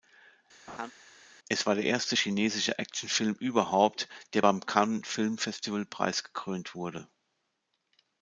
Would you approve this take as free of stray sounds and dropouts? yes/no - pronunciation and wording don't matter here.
no